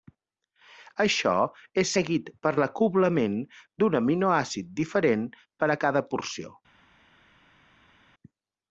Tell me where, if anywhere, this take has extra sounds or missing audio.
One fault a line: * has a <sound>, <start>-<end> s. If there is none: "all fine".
all fine